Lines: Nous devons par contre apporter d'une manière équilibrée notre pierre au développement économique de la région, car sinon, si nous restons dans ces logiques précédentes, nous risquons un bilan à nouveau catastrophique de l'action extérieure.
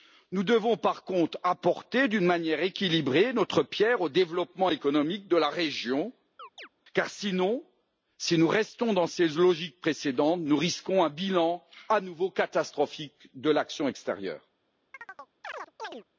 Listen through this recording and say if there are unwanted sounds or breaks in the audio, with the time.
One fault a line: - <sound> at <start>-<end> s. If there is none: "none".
- chirp at 6.4-6.7 s
- chirp at 14.9-16.0 s